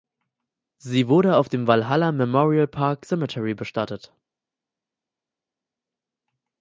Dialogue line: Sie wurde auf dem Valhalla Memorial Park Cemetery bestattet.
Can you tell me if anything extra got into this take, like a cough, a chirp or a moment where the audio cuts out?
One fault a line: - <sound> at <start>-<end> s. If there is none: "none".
none